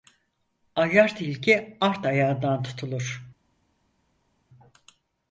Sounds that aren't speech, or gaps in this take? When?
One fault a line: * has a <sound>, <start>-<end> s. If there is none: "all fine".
all fine